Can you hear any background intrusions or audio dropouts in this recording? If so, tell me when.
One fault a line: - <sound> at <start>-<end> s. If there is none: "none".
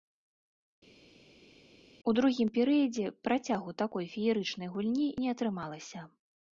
none